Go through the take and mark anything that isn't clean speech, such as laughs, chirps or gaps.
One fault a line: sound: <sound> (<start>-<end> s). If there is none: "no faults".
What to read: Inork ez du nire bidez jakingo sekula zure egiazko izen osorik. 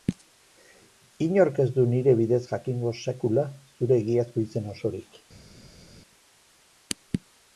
no faults